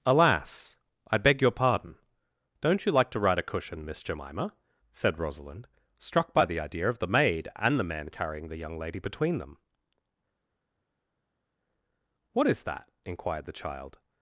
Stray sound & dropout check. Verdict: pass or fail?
pass